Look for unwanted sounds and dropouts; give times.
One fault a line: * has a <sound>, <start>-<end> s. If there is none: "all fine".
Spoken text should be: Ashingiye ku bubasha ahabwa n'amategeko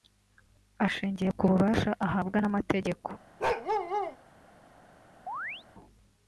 * has a bark, 3.4-4.2 s
* has a chirp, 5.3-5.6 s